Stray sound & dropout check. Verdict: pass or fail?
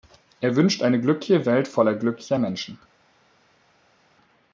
pass